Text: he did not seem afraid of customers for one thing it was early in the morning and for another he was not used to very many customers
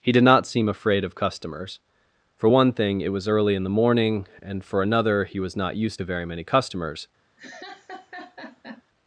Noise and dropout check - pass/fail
fail